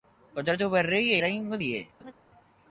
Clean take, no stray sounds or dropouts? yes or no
no